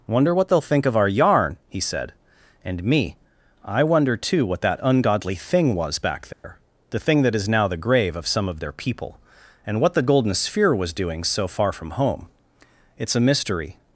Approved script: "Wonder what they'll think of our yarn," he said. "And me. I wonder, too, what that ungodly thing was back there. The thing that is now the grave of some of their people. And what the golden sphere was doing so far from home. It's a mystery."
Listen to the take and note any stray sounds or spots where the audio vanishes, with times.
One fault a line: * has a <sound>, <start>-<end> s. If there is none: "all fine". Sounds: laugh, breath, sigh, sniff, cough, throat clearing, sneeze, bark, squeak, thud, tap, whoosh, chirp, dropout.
* has a dropout, 6.3-6.4 s